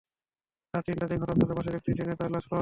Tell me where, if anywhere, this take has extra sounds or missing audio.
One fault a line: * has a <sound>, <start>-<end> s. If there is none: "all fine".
all fine